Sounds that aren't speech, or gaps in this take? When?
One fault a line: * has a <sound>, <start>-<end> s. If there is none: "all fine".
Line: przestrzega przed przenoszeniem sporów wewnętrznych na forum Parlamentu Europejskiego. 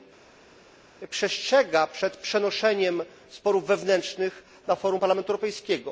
all fine